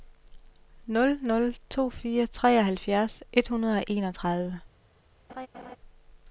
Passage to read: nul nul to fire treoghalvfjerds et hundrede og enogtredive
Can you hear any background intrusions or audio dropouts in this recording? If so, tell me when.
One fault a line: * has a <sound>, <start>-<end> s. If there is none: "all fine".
* has a laugh, 5.3-5.8 s